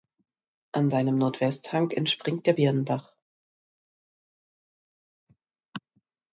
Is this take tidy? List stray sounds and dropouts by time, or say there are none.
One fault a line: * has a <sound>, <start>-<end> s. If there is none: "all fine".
all fine